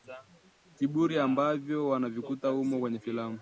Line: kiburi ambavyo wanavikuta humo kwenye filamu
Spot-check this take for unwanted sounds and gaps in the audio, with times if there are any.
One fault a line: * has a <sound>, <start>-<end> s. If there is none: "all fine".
all fine